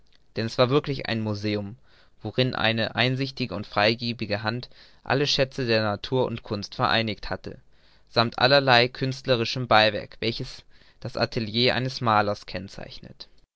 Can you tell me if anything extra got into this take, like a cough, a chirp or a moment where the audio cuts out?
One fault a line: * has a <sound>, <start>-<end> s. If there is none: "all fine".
all fine